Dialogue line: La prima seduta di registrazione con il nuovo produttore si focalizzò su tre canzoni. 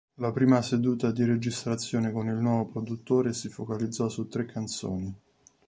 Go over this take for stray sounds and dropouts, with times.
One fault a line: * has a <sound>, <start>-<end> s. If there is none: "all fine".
all fine